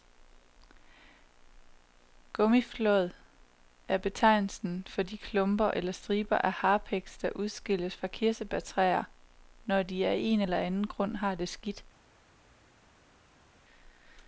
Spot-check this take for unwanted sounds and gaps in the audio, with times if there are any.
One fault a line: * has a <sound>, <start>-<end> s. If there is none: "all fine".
all fine